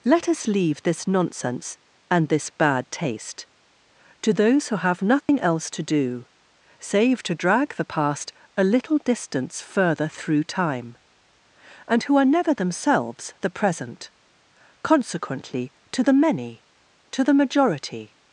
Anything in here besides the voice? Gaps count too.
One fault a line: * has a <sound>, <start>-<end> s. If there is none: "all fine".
* has a dropout, 5.2-5.3 s